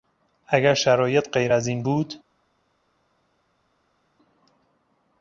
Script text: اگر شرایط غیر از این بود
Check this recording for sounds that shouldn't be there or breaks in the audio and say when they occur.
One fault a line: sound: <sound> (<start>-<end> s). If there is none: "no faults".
no faults